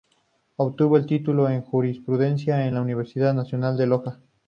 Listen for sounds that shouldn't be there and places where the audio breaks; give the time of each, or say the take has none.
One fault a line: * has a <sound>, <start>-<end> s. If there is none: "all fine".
all fine